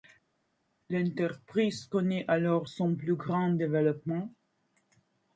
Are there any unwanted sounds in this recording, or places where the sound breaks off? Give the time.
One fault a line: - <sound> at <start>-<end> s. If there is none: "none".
none